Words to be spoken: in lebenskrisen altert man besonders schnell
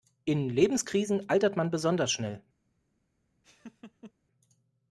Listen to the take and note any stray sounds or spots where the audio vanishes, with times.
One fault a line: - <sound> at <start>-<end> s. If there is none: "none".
- laugh at 3.4-4.1 s